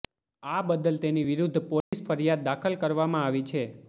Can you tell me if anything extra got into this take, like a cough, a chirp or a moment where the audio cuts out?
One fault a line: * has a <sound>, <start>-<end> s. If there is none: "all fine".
* has a dropout, 1.8-1.9 s